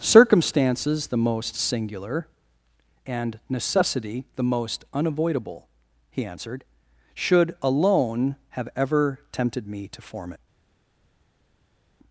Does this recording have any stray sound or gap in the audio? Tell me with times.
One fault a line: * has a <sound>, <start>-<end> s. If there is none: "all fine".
all fine